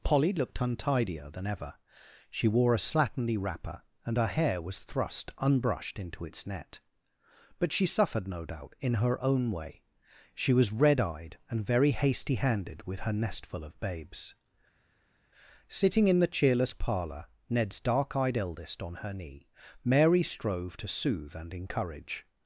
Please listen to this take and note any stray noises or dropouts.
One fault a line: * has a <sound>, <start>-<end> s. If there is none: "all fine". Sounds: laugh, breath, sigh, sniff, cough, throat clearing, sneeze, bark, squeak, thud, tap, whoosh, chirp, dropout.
all fine